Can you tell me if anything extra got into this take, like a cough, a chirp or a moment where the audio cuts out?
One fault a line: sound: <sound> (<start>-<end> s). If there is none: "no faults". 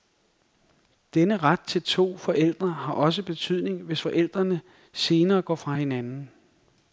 no faults